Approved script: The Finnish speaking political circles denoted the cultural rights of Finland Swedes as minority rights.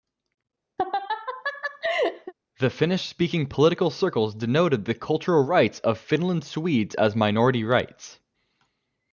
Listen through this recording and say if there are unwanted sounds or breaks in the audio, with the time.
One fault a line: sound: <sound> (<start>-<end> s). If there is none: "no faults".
sound: laugh (0.8-2.3 s)